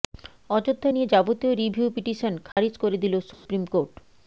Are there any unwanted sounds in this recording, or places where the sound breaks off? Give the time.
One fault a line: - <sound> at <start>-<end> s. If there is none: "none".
- dropout at 2.5-2.6 s
- dropout at 3.3-3.5 s